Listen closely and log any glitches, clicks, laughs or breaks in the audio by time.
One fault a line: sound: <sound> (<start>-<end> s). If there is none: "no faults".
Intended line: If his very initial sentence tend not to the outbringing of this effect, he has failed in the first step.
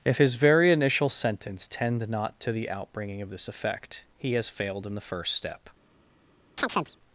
sound: chirp (6.6-7.0 s)